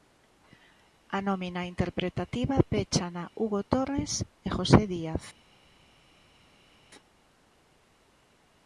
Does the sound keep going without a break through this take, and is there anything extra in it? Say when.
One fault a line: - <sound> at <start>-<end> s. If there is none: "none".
none